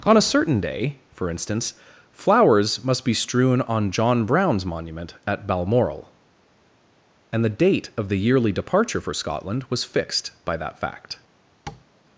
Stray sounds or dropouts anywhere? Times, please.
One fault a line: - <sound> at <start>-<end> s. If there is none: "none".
- tap at 11.7-11.9 s